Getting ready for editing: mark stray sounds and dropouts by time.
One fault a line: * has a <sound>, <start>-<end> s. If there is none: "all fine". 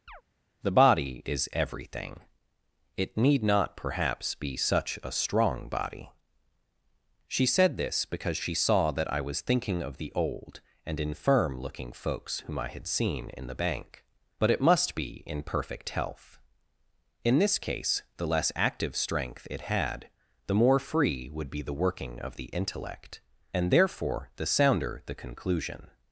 * has a chirp, 0.1-0.2 s